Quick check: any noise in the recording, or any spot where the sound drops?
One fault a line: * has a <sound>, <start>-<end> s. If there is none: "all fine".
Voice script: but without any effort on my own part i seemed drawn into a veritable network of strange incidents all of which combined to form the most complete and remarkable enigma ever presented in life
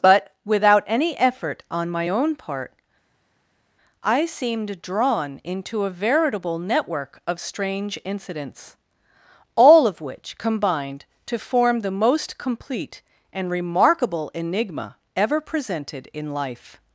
all fine